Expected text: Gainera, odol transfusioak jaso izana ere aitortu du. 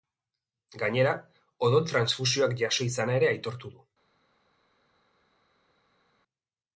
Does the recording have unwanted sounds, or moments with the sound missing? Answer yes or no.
no